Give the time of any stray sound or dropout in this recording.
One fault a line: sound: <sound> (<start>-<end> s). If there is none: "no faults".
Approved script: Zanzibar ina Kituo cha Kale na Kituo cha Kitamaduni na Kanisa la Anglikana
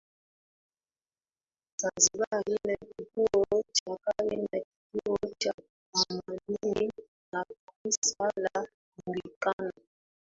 no faults